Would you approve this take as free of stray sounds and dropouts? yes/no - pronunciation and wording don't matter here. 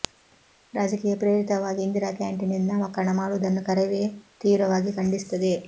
yes